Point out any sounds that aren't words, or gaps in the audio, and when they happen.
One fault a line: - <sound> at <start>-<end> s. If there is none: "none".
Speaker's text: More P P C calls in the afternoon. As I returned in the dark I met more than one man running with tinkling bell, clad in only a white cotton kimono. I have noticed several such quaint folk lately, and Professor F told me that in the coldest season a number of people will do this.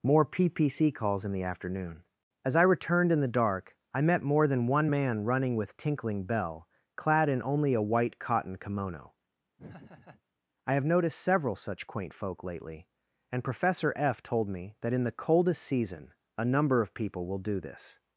- laugh at 9.6-10.2 s